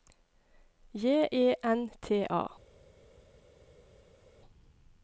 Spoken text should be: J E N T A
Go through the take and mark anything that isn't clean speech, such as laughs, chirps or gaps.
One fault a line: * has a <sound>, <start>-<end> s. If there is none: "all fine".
all fine